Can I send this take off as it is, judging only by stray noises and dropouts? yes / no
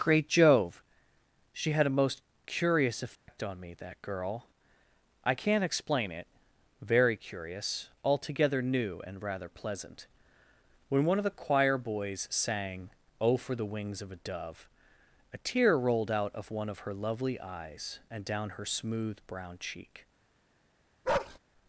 no